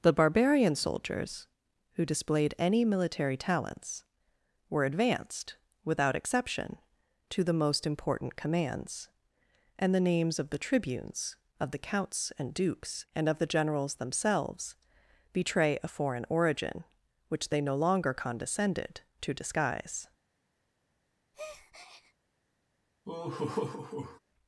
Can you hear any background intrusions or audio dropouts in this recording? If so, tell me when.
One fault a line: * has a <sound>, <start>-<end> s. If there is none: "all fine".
* has a breath, 21.3-22.1 s
* has a laugh, 23.0-24.2 s